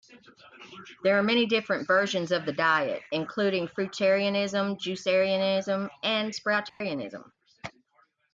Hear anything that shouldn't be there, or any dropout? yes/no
yes